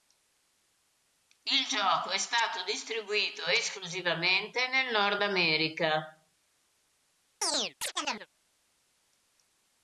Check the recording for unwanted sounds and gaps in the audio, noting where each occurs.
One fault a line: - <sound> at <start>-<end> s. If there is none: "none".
- chirp at 7.4-8.3 s